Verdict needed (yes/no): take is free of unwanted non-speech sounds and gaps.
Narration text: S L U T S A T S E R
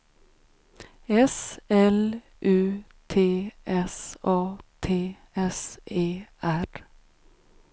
yes